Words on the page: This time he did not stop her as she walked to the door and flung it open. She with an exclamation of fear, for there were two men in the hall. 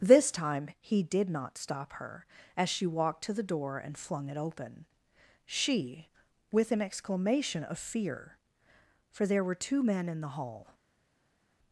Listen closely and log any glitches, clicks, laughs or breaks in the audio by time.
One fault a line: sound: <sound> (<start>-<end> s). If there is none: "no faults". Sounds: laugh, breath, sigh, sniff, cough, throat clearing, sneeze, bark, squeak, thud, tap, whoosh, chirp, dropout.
no faults